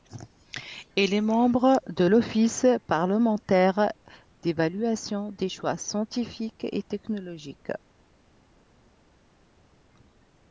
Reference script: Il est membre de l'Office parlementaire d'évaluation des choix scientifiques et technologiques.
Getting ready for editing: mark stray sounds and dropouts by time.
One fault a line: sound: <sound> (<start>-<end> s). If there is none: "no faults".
no faults